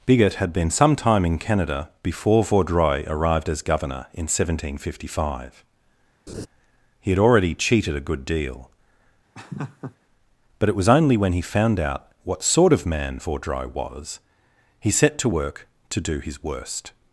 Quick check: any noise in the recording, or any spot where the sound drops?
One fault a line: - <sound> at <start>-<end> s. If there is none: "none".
- laugh at 6.3-6.5 s
- laugh at 9.3-10.0 s